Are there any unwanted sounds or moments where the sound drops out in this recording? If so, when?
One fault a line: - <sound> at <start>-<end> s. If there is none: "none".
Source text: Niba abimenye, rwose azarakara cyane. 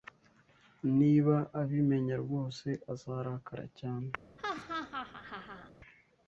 - laugh at 4.4-5.7 s